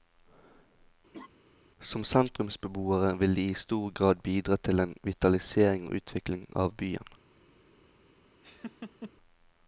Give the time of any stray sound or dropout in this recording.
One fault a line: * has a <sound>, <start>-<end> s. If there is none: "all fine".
* has a laugh, 1.1-1.3 s
* has a laugh, 8.4-9.1 s